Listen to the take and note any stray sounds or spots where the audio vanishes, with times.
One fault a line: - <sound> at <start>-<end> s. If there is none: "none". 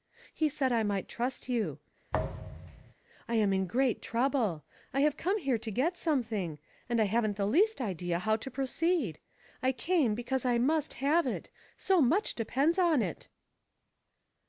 - thud at 2.1-2.9 s